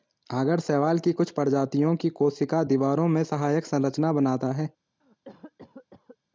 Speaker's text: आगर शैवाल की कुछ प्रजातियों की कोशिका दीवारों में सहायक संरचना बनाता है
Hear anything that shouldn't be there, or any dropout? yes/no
yes